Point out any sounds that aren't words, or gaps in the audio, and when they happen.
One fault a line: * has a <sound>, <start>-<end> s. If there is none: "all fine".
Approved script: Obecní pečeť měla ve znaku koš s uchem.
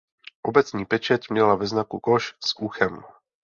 all fine